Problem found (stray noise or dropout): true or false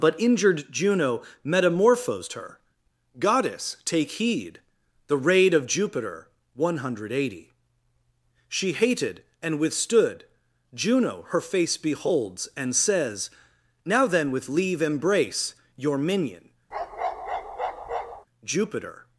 true